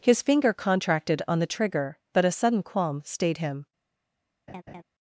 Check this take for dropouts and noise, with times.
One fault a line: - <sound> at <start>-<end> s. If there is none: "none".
- laugh at 4.5-4.8 s